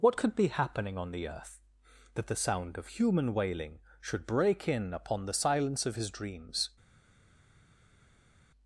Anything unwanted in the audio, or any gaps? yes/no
no